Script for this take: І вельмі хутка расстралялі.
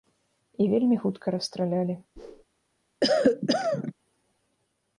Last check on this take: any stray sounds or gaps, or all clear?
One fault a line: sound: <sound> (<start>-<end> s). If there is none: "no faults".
sound: whoosh (2.2-2.4 s)
sound: cough (3.0-3.9 s)